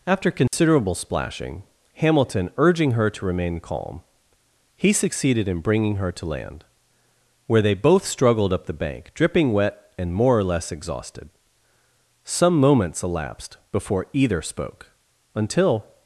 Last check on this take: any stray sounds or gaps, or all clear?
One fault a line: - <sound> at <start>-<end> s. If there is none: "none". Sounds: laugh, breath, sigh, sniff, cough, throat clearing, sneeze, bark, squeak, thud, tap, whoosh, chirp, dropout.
- dropout at 0.5-0.5 s